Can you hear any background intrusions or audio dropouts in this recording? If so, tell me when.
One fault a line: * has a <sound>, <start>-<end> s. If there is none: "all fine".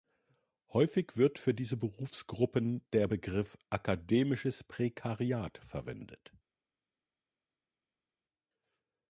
all fine